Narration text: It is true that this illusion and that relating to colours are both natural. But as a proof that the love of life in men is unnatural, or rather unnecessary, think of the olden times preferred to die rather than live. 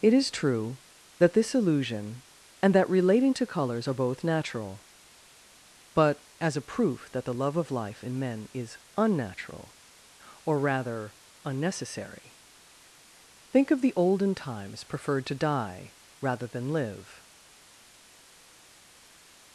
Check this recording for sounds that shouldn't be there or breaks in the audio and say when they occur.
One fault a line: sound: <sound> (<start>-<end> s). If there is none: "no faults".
no faults